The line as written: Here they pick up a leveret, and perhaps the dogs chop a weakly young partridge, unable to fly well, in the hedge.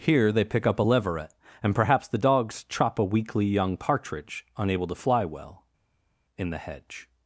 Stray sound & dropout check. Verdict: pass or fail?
pass